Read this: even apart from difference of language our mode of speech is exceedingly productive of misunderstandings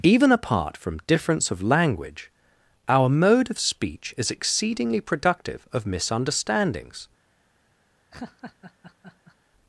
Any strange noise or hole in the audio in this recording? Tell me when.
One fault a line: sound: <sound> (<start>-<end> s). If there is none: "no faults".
sound: laugh (8.1-9.4 s)